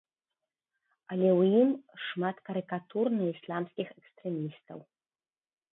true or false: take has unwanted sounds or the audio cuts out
false